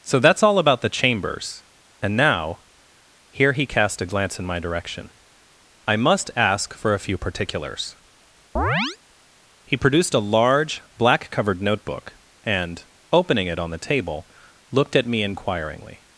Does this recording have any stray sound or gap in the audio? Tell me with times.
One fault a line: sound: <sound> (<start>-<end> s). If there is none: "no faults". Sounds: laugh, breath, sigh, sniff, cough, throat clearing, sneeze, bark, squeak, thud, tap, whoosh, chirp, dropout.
sound: chirp (8.6-9.0 s)